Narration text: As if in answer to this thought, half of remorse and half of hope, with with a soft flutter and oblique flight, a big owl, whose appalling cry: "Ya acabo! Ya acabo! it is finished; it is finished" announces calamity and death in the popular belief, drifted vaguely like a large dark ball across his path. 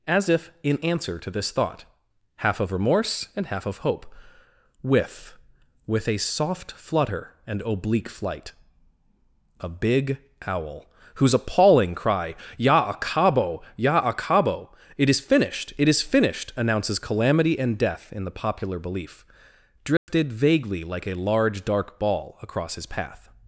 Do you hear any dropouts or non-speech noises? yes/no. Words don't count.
yes